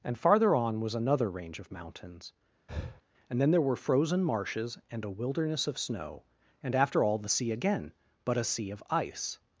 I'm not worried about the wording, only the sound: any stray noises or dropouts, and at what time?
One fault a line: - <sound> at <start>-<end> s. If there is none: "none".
- breath at 2.7-3.0 s